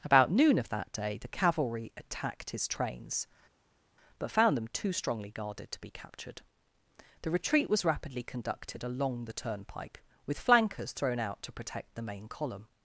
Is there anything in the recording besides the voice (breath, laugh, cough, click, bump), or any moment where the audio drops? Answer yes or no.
no